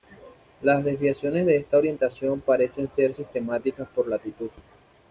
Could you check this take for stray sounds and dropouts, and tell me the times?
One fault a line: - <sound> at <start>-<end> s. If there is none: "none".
none